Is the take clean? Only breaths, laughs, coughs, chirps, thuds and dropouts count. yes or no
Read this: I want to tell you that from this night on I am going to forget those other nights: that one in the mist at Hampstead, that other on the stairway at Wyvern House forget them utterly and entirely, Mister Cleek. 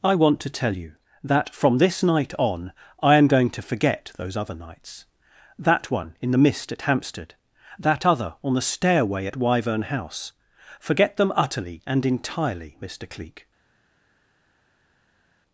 yes